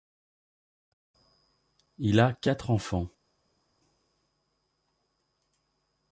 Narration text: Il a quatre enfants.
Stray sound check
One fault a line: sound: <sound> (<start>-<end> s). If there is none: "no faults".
no faults